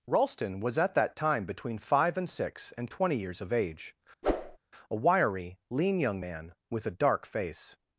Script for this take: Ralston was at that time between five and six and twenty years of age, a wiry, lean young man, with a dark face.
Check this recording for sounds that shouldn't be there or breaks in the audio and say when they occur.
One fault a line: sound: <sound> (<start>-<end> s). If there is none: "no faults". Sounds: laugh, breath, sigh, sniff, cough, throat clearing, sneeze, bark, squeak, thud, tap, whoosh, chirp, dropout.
sound: whoosh (4.2-4.6 s)